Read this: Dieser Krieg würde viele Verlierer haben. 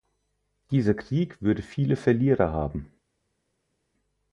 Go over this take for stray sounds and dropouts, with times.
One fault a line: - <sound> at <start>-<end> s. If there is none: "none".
none